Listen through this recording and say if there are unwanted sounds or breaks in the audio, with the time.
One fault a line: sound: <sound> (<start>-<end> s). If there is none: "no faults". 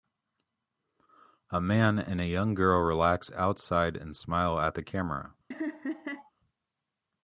sound: laugh (5.5-6.3 s)